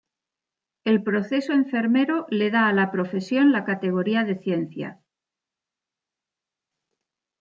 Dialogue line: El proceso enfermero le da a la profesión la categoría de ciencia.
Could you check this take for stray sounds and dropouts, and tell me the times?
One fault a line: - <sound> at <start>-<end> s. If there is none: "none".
none